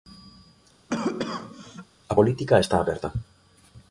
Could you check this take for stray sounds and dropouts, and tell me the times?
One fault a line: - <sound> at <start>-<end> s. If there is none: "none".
- cough at 0.9-1.9 s